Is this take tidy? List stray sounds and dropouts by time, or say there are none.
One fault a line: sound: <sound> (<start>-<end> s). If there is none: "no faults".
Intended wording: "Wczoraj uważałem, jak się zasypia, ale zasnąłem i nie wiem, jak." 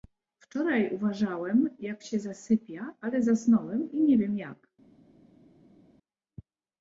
no faults